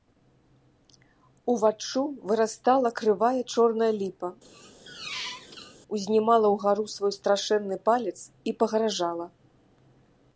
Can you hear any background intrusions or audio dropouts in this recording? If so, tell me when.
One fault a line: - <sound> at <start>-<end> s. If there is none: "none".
- squeak at 4.4-5.8 s